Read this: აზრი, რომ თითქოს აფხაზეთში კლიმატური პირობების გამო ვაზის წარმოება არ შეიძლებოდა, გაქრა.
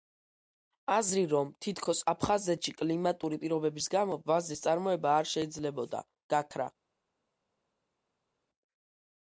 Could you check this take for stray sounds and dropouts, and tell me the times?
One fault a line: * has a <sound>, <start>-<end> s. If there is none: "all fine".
all fine